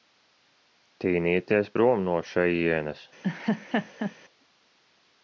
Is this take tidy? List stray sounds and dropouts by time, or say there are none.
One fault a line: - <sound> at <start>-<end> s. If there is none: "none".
- laugh at 3.2-4.2 s